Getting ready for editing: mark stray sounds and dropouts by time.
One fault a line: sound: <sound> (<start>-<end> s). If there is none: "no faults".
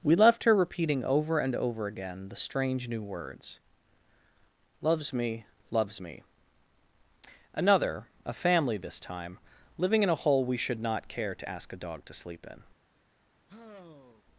sound: sigh (13.5-14.2 s)